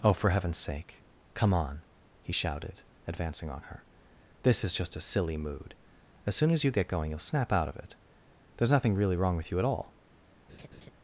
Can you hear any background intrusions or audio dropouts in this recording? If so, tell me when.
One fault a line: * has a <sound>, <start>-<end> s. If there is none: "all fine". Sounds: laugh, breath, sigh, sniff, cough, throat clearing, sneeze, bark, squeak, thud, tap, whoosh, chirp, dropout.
* has a laugh, 10.5-10.9 s